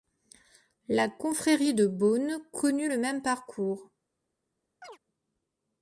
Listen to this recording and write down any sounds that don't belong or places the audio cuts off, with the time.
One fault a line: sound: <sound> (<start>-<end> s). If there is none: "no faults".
sound: chirp (4.8-5.0 s)